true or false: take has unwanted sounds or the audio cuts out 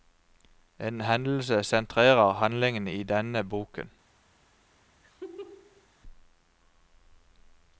true